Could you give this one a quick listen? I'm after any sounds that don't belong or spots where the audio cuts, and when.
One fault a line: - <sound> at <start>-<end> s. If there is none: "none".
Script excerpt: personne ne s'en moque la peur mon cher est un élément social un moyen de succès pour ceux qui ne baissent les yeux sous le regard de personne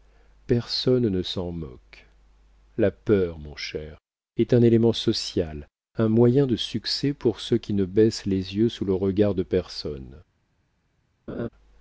- laugh at 11.3-11.5 s